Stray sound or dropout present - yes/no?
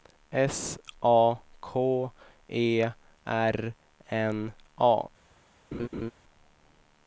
yes